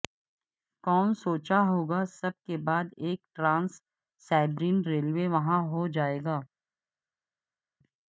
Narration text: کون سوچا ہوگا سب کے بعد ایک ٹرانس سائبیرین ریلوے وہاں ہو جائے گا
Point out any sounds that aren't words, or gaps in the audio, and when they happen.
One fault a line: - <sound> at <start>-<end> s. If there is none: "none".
none